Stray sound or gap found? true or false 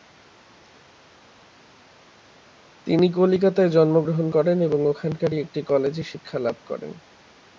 false